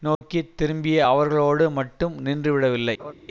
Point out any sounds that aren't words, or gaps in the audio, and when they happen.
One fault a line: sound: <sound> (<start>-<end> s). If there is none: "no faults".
sound: dropout (0.1-0.2 s)
sound: laugh (3.0-3.1 s)